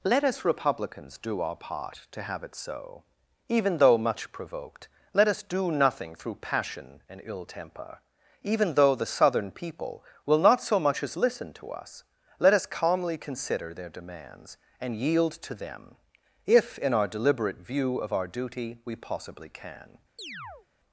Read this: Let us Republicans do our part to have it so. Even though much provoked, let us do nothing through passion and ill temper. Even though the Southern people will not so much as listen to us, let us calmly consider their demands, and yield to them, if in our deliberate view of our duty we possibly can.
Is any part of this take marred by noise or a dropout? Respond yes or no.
yes